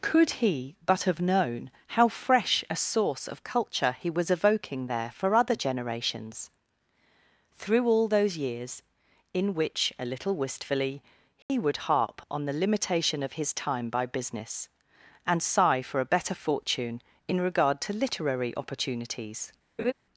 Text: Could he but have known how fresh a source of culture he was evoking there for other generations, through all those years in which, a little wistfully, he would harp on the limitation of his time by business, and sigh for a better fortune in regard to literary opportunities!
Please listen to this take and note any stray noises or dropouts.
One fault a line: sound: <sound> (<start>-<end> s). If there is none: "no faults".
sound: dropout (11.4-11.5 s)
sound: laugh (19.8-19.9 s)